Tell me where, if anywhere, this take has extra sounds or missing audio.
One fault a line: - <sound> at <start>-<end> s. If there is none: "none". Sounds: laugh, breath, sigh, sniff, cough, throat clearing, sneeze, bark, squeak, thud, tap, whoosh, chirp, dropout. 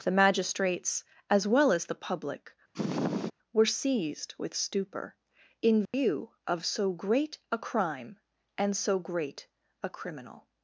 - sniff at 2.7-3.3 s
- dropout at 5.9-5.9 s